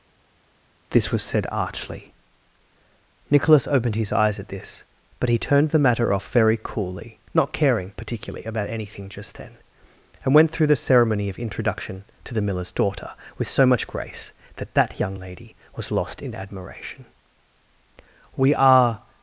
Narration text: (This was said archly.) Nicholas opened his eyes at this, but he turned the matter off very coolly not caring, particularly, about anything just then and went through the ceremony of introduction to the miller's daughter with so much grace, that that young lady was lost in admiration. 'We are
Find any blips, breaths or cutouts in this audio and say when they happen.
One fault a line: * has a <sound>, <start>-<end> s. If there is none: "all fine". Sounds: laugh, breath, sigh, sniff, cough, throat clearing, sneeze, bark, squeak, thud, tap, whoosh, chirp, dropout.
all fine